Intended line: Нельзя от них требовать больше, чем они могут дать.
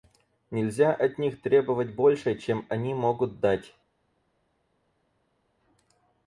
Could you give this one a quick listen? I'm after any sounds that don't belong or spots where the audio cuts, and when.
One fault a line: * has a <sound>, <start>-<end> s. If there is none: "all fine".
all fine